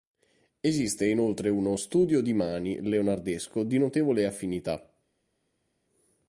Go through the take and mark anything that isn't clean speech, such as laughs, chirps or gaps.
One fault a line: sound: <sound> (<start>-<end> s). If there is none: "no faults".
no faults